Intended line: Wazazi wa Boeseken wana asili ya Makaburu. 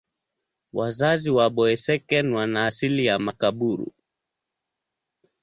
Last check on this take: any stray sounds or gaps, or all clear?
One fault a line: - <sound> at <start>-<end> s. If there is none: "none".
none